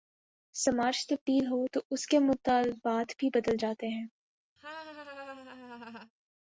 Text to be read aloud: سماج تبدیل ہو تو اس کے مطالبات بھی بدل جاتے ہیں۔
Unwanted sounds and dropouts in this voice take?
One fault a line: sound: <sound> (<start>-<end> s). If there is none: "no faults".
sound: laugh (4.6-6.1 s)